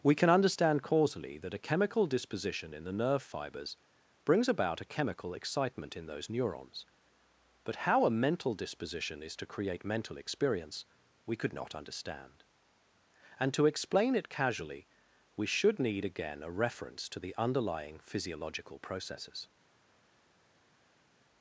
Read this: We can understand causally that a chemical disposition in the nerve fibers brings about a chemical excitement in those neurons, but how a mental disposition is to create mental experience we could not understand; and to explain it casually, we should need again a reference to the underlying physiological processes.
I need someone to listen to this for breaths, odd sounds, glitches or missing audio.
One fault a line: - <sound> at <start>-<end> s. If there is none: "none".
none